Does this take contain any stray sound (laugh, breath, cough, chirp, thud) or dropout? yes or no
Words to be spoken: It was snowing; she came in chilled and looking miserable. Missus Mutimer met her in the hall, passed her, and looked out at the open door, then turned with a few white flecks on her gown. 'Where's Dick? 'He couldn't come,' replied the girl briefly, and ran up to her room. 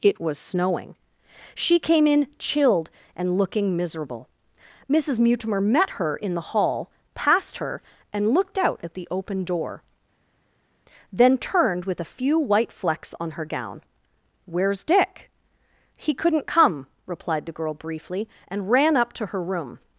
no